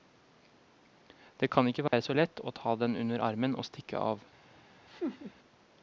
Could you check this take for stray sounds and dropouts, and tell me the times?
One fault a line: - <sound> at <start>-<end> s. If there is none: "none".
- dropout at 1.9-1.9 s
- laugh at 4.9-5.3 s